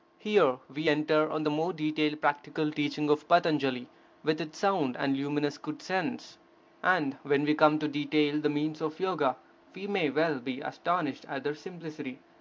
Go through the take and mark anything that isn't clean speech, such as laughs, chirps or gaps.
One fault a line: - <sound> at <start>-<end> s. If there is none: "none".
none